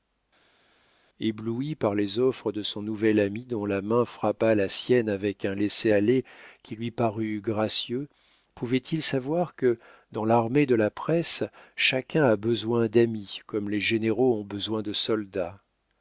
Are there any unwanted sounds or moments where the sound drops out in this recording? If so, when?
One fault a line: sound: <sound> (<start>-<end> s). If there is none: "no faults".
no faults